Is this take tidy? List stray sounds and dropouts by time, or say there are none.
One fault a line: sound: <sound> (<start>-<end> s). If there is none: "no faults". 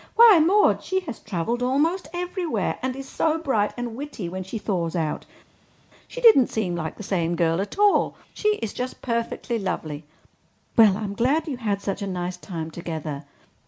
no faults